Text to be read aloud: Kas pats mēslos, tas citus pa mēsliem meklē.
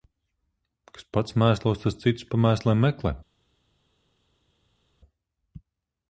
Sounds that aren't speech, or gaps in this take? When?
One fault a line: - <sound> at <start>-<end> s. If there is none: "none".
none